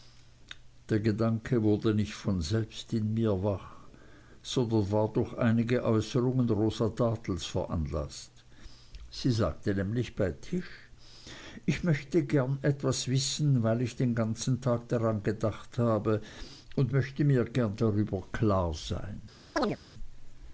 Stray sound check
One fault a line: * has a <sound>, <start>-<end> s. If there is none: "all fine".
* has a chirp, 19.6-19.8 s